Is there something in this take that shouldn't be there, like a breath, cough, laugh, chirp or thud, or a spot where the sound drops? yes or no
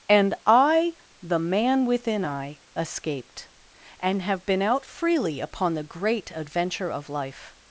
no